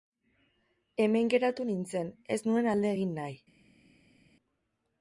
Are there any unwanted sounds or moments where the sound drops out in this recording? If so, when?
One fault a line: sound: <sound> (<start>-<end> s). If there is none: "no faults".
no faults